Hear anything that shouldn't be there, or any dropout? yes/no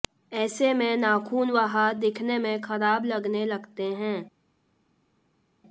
no